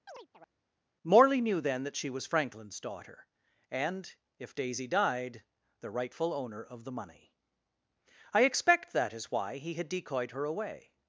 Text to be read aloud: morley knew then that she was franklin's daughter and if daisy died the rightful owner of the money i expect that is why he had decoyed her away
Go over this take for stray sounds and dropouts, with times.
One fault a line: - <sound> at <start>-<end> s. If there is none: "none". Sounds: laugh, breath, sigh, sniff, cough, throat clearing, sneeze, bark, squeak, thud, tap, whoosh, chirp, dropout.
- chirp at 0.1-0.5 s